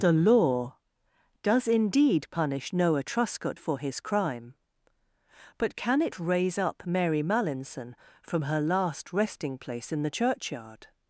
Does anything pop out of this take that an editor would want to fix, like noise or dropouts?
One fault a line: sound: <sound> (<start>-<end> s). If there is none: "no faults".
no faults